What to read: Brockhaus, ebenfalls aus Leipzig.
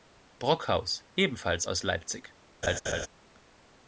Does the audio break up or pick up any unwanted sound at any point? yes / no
yes